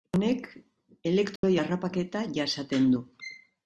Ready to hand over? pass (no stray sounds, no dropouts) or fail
fail